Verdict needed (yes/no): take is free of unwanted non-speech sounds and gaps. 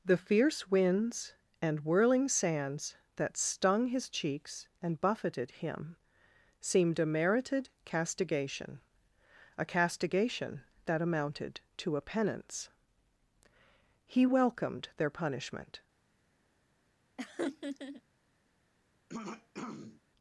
no